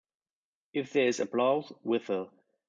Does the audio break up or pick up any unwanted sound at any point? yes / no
no